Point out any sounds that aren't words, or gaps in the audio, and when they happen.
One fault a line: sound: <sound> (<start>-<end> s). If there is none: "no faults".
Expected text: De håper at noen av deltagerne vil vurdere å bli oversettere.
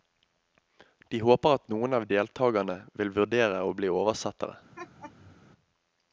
sound: laugh (4.8-5.4 s)